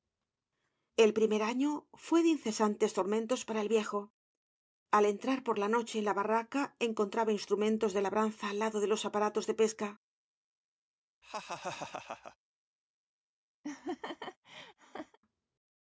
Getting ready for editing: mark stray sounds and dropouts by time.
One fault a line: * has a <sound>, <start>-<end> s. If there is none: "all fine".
* has a laugh, 11.2-12.4 s
* has a laugh, 13.6-15.2 s